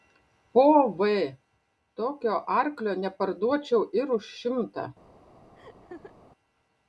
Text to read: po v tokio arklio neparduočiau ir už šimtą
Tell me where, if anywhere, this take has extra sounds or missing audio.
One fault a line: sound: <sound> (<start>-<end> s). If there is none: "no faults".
sound: laugh (5.6-6.1 s)